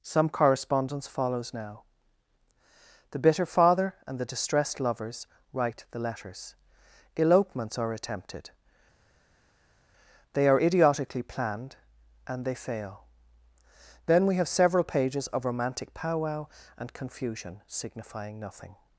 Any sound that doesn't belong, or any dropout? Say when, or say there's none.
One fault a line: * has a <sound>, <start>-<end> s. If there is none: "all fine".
all fine